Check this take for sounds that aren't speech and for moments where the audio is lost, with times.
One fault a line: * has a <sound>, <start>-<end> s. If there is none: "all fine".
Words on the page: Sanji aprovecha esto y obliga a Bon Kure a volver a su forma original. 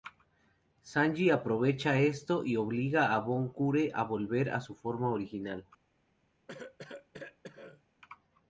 * has a cough, 6.5-7.8 s